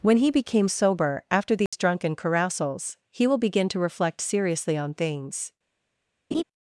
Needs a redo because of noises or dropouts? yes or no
yes